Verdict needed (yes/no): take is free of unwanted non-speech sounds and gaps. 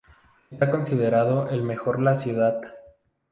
yes